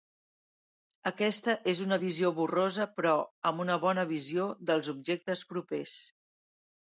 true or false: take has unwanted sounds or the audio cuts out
false